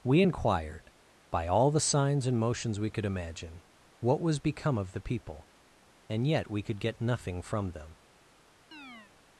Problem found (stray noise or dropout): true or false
true